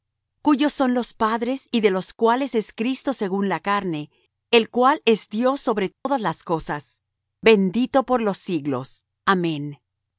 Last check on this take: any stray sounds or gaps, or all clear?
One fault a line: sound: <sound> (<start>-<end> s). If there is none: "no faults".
sound: dropout (5.9-6.1 s)